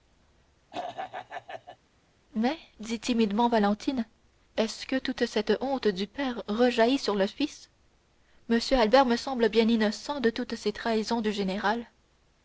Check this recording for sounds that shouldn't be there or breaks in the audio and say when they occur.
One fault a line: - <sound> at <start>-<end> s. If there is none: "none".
- throat clearing at 0.7-1.8 s